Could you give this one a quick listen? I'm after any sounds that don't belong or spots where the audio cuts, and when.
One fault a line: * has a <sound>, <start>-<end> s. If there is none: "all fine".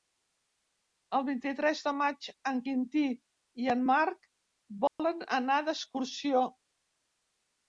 * has a dropout, 4.9-5.0 s